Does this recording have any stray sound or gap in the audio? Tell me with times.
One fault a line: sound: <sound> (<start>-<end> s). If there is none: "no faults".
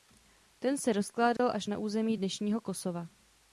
sound: dropout (1.4-1.4 s)